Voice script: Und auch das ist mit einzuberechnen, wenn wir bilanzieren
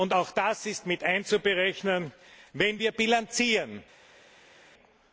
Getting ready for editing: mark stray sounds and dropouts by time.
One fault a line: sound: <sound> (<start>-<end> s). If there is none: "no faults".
no faults